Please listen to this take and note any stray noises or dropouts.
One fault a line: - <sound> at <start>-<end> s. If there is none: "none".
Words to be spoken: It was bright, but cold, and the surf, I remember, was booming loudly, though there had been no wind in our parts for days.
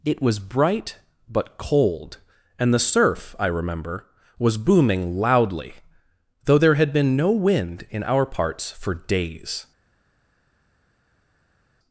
none